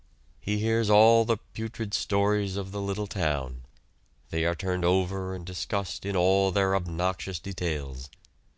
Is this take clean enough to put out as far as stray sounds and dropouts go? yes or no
yes